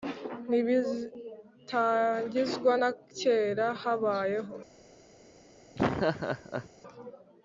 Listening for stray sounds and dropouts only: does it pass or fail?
fail